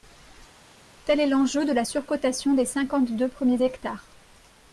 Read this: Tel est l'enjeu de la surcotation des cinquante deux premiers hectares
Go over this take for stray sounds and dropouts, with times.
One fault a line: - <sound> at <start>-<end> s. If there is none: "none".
none